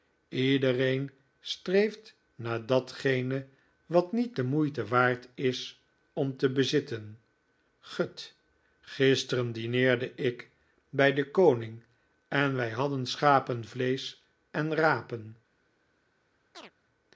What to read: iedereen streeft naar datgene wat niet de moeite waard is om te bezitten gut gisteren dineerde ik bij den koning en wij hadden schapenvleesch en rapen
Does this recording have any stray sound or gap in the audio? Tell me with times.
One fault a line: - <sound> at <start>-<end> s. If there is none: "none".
- chirp at 16.5-16.7 s